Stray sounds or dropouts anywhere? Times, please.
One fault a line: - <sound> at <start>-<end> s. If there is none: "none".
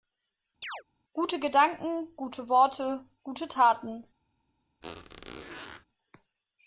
- chirp at 0.6-0.8 s
- squeak at 4.8-5.9 s